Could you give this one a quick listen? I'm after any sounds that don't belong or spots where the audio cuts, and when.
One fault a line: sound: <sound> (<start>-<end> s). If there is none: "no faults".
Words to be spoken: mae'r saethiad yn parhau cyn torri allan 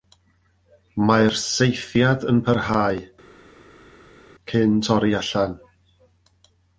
no faults